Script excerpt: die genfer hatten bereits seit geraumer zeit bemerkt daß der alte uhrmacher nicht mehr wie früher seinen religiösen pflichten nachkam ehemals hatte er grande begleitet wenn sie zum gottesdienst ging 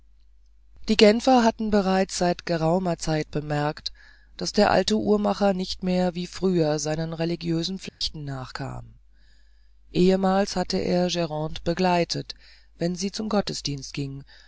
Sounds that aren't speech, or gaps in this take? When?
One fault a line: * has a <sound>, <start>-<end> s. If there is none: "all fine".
* has a dropout, 7.9-8.0 s